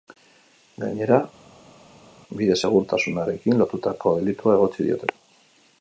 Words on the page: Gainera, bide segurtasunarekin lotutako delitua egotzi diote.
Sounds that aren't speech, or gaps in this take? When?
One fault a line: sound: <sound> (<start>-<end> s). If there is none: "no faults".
no faults